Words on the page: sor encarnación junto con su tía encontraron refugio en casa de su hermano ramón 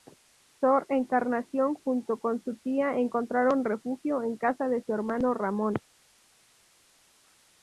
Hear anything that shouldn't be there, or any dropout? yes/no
no